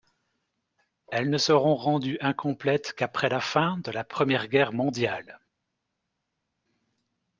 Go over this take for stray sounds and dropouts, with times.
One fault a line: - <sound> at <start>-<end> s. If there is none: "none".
none